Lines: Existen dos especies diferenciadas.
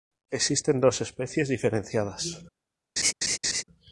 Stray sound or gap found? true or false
true